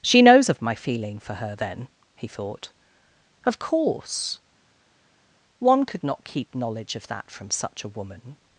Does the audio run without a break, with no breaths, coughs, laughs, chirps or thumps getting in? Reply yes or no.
yes